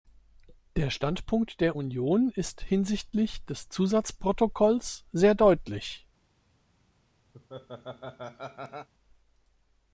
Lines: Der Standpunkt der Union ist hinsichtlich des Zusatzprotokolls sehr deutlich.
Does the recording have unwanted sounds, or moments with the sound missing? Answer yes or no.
yes